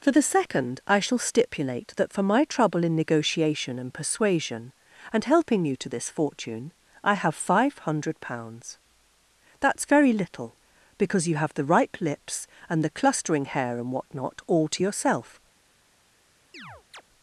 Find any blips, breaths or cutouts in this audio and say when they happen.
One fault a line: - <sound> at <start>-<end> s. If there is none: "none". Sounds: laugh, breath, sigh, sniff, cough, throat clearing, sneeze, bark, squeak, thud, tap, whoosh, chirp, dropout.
- chirp at 16.5-17.0 s